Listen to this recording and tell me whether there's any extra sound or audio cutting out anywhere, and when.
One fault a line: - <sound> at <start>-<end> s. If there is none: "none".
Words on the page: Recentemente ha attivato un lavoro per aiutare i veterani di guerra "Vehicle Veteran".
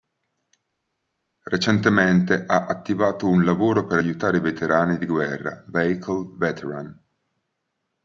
none